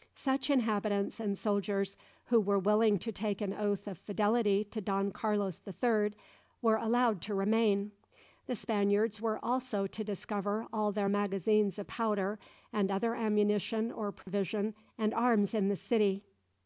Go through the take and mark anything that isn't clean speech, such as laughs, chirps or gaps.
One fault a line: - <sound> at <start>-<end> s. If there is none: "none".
- dropout at 14.2-14.3 s